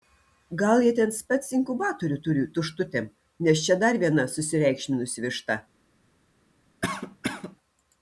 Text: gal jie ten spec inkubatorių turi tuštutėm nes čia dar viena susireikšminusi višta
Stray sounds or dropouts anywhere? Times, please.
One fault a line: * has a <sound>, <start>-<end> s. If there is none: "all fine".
* has a cough, 6.8-7.6 s